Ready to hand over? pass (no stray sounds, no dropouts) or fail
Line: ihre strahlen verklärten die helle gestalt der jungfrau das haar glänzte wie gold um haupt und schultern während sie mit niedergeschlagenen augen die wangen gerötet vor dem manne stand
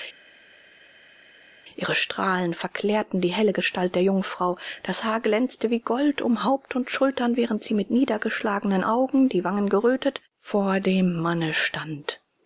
pass